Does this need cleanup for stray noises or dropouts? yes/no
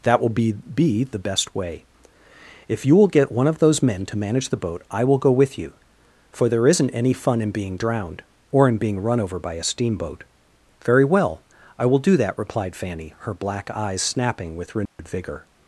yes